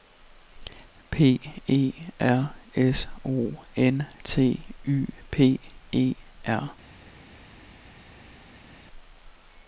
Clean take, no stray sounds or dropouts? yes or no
yes